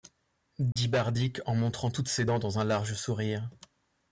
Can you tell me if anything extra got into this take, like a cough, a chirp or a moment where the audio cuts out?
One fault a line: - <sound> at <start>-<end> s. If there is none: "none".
- dropout at 0.7-0.8 s